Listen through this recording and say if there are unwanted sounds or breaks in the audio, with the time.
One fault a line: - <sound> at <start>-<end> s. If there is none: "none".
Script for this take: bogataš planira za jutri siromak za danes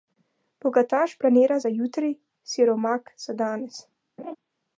- laugh at 4.2-4.4 s